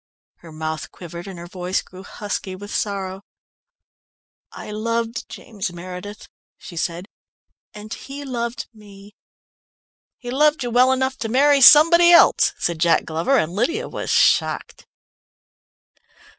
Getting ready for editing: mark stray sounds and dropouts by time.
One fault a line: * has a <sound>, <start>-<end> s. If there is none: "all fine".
all fine